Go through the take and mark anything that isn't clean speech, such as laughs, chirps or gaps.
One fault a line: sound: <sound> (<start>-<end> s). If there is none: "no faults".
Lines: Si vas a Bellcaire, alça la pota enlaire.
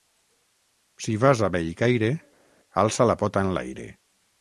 no faults